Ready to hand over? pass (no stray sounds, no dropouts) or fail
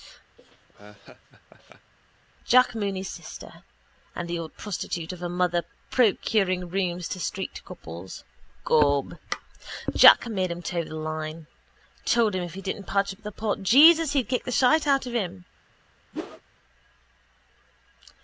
fail